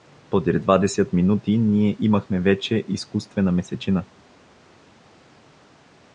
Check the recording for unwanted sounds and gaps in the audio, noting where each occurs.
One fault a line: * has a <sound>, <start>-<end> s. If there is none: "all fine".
all fine